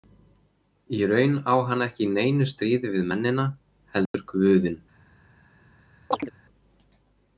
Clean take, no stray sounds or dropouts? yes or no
no